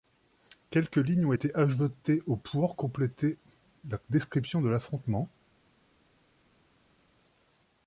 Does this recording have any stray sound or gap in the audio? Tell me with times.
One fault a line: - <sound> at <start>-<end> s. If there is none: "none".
none